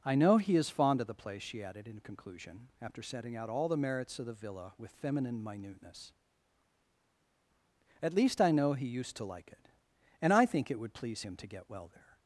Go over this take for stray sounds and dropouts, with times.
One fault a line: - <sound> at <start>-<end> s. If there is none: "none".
none